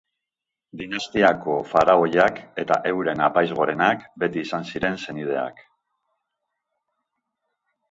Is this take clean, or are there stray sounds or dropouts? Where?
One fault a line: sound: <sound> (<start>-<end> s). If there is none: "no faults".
no faults